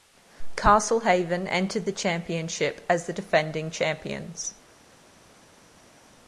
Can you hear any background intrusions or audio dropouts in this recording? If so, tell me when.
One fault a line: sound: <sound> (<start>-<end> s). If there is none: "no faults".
no faults